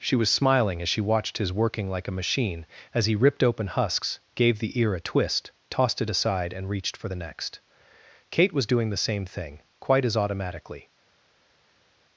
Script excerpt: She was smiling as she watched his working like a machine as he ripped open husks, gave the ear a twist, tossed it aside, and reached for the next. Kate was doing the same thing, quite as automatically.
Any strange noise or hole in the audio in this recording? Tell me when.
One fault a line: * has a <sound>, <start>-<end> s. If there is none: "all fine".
all fine